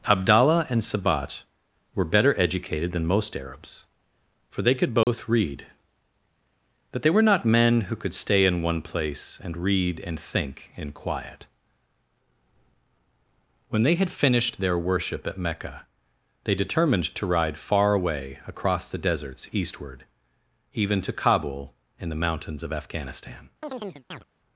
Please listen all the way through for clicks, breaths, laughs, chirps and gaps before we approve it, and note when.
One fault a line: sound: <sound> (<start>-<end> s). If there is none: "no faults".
sound: dropout (5.0-5.1 s)
sound: chirp (23.6-24.2 s)